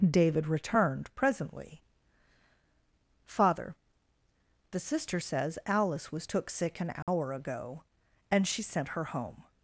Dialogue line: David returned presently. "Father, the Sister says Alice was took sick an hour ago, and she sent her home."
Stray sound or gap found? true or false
true